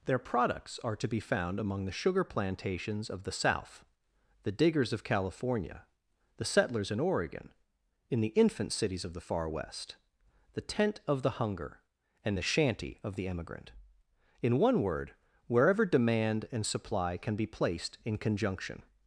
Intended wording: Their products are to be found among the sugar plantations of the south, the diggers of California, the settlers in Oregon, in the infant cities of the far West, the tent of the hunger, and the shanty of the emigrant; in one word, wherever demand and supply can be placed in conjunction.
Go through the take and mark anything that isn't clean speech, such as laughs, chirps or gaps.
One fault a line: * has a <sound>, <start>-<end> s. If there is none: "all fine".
all fine